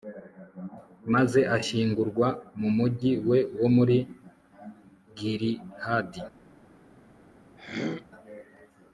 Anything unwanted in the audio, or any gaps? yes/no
yes